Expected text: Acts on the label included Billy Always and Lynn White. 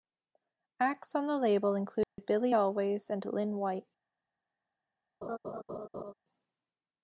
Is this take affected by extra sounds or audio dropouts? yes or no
yes